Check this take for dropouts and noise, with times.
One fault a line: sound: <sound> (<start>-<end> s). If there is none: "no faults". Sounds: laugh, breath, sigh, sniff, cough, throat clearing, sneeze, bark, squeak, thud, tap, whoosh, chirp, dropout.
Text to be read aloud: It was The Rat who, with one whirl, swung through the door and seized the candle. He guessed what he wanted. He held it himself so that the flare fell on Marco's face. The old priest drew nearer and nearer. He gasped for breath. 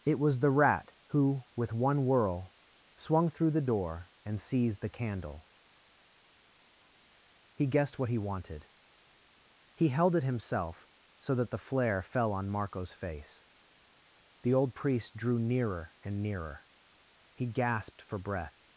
no faults